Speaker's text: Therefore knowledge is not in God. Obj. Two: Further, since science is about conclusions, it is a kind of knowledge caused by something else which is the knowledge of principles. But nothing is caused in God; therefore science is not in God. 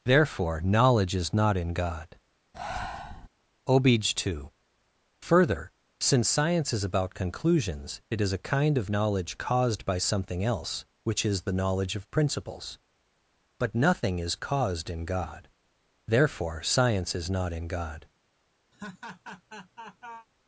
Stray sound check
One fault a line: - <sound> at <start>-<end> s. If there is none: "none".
- breath at 2.5-3.3 s
- laugh at 18.7-20.3 s